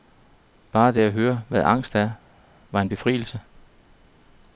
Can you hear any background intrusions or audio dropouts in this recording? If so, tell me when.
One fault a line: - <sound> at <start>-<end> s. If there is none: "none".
none